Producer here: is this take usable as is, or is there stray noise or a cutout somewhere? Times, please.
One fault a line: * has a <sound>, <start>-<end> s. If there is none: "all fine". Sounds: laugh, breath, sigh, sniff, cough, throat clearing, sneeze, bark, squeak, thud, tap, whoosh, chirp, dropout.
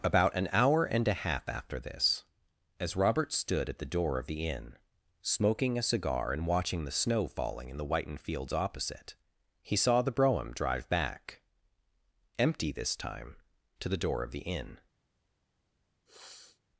* has a sniff, 16.1-16.6 s